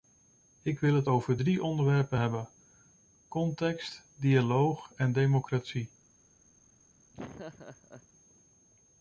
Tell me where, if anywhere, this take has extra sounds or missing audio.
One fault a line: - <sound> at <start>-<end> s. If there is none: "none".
- laugh at 7.1-8.1 s